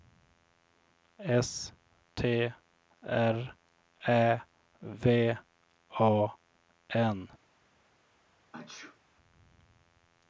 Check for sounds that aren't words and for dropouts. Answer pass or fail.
fail